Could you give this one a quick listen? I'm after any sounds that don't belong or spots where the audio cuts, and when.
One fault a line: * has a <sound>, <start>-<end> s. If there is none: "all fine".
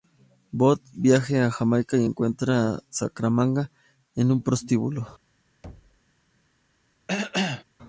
* has a thud, 5.6-6.0 s
* has a cough, 7.1-7.6 s